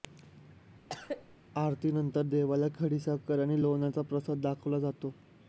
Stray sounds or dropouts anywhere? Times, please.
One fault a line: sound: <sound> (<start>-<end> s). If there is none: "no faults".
sound: cough (0.9-1.4 s)